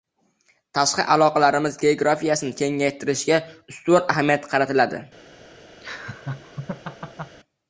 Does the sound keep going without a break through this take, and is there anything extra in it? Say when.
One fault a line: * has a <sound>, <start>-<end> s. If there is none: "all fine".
* has a laugh, 5.8-7.4 s